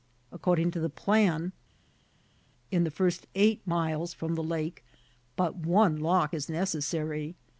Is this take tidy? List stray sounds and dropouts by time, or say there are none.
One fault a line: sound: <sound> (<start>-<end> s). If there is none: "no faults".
no faults